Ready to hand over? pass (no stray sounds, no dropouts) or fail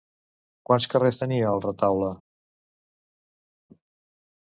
pass